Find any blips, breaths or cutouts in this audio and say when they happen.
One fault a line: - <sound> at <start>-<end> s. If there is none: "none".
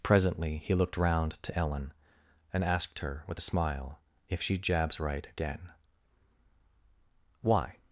none